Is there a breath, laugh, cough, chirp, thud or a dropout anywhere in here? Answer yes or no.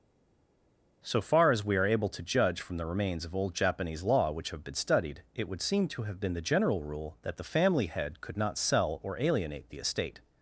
no